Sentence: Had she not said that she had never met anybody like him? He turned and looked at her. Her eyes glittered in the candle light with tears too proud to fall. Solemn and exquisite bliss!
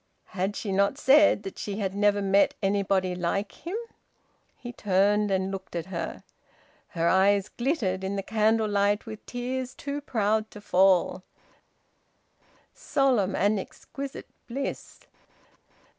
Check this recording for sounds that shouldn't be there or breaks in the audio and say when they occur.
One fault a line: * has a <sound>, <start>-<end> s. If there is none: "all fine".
all fine